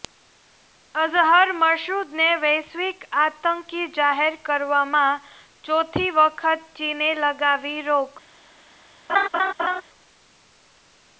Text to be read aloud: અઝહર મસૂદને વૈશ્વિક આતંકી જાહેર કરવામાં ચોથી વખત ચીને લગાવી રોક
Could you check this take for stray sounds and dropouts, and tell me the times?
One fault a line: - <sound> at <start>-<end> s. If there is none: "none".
- laugh at 9.1-9.8 s